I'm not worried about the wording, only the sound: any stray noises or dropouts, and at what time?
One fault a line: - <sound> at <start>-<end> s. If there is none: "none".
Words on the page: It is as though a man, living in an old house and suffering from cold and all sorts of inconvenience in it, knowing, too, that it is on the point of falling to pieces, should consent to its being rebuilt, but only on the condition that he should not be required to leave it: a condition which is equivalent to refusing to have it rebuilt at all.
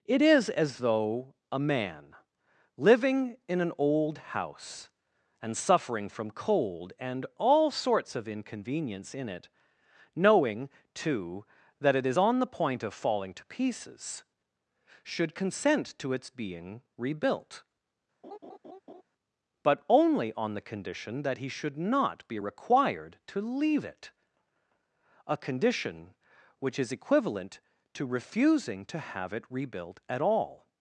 - laugh at 18.2-19.0 s